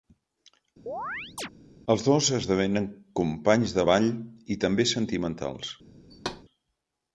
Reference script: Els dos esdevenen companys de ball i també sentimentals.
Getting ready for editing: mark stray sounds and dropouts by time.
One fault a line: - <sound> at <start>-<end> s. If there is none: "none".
- chirp at 0.9-1.5 s
- thud at 6.1-6.4 s